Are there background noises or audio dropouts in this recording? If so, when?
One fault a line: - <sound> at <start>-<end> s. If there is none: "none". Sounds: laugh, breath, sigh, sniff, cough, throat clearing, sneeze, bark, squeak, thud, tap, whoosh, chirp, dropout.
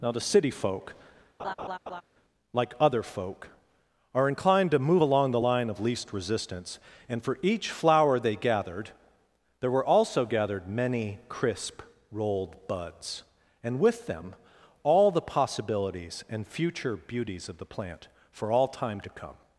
- laugh at 1.4-2.0 s